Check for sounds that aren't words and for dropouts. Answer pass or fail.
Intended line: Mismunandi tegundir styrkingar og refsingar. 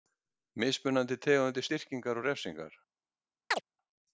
fail